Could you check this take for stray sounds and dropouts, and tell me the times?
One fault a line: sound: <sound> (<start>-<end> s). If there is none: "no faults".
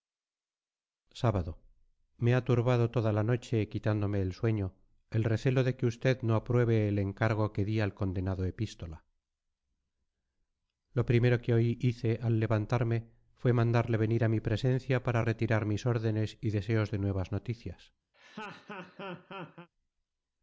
sound: laugh (18.1-19.7 s)